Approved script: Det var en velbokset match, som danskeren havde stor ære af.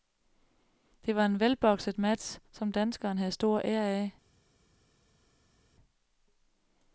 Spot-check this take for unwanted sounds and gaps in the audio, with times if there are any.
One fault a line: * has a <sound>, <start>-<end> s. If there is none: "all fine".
all fine